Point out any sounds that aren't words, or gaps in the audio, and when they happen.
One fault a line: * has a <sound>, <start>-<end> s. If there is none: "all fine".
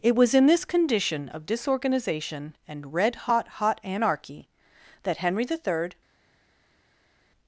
all fine